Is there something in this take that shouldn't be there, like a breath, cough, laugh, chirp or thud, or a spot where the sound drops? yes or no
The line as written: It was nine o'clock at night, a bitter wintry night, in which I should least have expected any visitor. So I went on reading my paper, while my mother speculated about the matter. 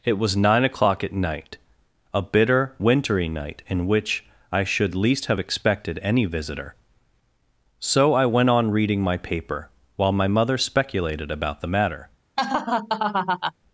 yes